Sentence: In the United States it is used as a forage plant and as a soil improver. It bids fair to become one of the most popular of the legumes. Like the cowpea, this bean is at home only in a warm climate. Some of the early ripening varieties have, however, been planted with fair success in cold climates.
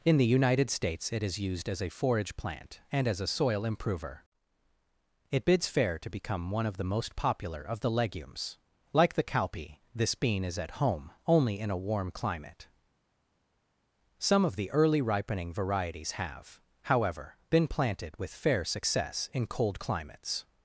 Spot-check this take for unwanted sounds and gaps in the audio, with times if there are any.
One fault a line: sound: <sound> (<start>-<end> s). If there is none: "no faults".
no faults